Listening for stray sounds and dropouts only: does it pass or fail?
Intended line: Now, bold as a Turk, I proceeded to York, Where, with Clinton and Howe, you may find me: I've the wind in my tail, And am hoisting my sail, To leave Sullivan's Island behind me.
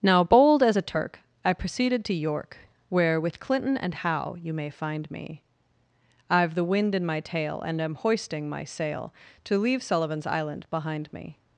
pass